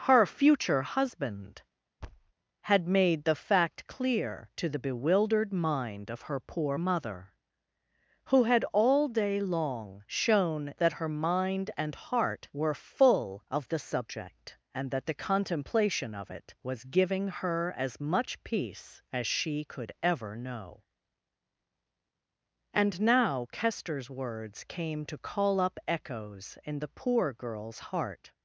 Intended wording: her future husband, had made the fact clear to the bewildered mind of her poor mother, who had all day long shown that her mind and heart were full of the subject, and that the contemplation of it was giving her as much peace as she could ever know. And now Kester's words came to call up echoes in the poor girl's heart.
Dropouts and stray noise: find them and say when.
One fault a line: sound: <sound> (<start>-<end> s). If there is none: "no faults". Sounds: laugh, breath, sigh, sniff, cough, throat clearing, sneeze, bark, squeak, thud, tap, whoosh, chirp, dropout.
sound: thud (2.0-2.3 s)